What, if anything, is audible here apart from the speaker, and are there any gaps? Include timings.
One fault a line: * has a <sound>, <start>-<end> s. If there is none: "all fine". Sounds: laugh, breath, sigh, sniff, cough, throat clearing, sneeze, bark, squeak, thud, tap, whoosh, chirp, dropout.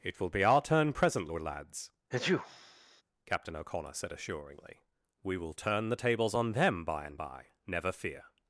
* has a sneeze, 2.1-3.0 s